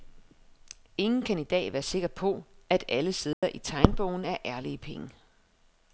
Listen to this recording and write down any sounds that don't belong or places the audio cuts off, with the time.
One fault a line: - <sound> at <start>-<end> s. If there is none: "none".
- dropout at 3.3-3.4 s